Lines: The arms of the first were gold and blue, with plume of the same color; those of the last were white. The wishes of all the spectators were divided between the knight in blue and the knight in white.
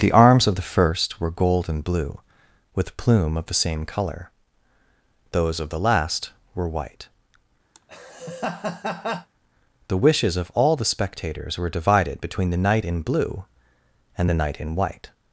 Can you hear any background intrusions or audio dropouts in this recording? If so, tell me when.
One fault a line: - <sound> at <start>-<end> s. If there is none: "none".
- laugh at 7.7-9.3 s